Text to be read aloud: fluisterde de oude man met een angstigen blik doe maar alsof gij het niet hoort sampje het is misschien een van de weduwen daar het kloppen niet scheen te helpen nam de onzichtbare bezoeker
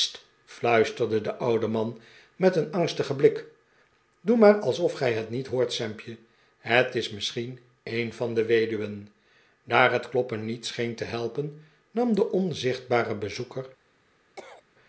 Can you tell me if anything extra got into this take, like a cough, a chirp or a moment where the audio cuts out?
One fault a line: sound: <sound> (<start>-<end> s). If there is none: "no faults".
sound: cough (14.4-14.6 s)